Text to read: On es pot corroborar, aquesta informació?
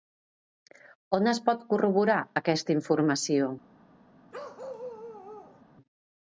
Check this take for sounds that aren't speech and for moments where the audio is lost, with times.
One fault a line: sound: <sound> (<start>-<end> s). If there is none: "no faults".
sound: bark (4.3-5.6 s)